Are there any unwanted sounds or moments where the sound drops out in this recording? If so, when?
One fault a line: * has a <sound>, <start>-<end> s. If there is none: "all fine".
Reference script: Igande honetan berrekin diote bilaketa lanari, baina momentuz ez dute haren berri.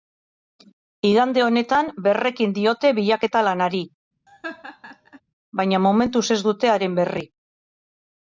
* has a laugh, 4.3-5.2 s